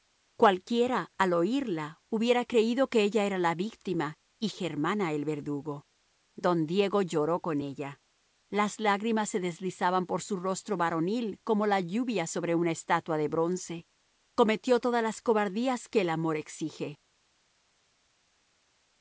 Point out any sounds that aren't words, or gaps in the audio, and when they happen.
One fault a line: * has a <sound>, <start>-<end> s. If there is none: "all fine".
all fine